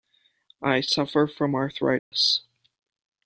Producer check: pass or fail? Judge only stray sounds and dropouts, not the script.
fail